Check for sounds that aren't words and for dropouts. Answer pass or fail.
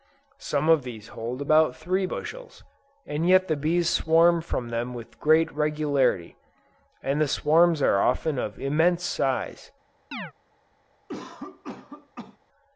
fail